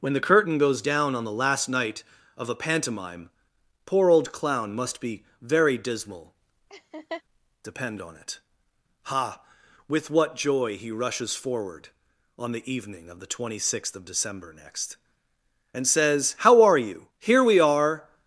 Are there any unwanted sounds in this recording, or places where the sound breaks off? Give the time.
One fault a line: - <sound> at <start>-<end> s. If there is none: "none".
- laugh at 6.7-7.2 s